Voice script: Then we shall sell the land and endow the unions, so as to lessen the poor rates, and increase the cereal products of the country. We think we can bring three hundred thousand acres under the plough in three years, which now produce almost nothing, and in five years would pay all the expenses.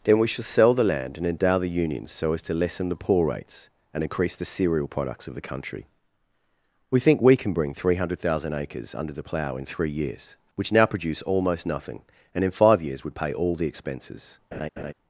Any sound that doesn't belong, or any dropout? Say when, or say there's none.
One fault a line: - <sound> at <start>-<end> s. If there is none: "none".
- laugh at 14.5-14.9 s